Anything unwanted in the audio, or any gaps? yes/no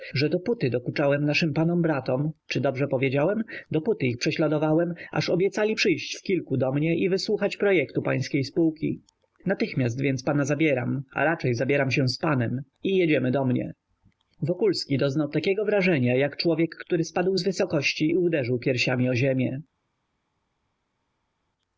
no